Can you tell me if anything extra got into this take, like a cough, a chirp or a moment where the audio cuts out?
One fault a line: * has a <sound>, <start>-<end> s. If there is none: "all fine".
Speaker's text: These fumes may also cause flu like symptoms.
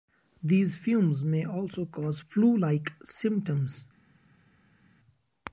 all fine